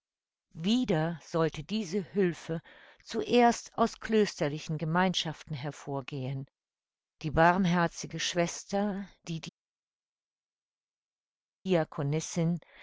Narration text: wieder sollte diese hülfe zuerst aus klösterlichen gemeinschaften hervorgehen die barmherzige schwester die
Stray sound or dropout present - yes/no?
no